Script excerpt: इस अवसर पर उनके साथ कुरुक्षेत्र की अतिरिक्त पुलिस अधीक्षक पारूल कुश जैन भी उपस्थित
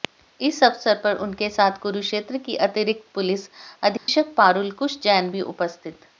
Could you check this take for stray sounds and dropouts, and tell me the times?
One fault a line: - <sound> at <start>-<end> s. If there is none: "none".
- dropout at 4.0-4.1 s